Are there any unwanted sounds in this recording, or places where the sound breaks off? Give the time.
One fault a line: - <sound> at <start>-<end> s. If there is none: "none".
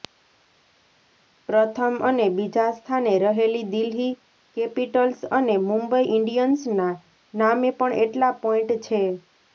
none